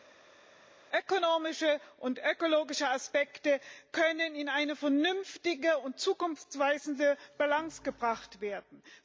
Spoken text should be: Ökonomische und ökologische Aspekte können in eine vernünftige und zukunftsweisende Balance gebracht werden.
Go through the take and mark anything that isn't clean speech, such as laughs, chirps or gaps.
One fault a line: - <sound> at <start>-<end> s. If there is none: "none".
none